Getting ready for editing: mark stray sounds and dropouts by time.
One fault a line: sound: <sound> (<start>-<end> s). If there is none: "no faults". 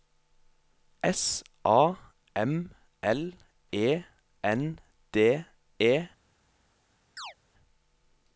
sound: chirp (7.2-7.3 s)